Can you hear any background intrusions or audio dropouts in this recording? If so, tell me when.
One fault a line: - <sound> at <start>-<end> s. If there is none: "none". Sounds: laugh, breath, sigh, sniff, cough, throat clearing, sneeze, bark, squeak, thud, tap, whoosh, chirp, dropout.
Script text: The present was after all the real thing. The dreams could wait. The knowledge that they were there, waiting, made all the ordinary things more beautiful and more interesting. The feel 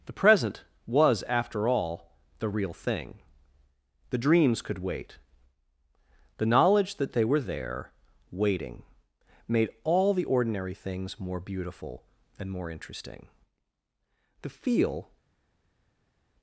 none